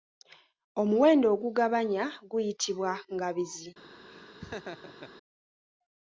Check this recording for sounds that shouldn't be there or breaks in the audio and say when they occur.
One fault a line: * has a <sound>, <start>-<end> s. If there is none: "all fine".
* has a laugh, 4.1-5.1 s